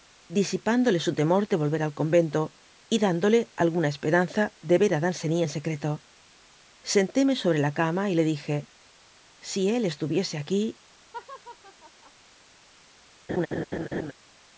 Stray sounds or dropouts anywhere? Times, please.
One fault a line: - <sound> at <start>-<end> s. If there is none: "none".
- laugh at 11.1-12.1 s
- laugh at 13.3-14.1 s